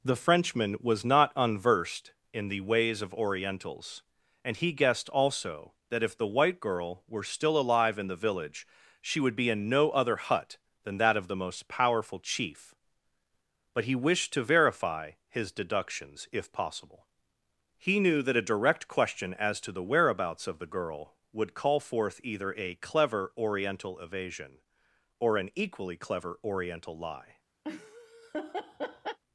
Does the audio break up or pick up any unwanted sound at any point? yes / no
yes